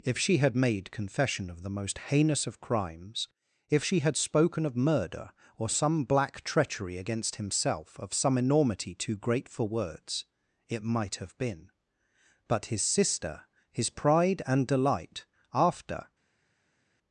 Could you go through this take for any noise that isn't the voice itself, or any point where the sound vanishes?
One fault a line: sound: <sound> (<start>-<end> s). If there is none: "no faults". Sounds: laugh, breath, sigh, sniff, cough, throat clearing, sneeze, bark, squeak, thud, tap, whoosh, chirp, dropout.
no faults